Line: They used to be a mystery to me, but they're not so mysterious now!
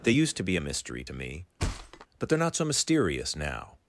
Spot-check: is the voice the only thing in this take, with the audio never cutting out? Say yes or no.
no